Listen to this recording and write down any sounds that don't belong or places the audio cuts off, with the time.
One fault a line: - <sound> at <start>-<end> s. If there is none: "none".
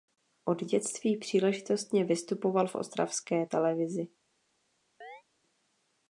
- chirp at 5.0-5.2 s